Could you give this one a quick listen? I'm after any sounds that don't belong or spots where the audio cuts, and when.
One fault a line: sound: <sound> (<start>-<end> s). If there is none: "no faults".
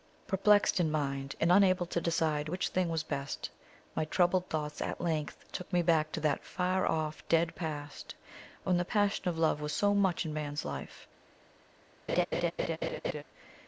sound: laugh (12.1-13.2 s)